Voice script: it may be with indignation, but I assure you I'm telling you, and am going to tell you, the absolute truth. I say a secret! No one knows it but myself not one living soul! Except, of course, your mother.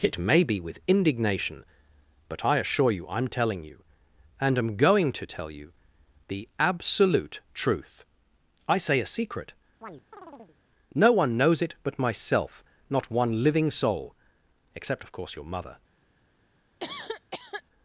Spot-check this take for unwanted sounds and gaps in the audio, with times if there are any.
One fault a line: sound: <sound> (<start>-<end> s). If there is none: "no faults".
sound: chirp (9.8-10.6 s)
sound: cough (16.8-17.6 s)